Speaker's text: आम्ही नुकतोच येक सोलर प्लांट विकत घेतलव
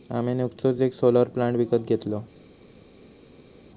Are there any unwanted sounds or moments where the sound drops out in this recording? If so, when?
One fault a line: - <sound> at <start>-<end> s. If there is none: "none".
none